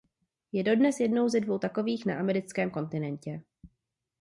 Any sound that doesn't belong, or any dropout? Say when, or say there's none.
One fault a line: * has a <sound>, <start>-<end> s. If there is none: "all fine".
all fine